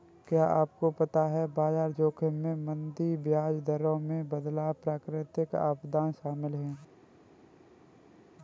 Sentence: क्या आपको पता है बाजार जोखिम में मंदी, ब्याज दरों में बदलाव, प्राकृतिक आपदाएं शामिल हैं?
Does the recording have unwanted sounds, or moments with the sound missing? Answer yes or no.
no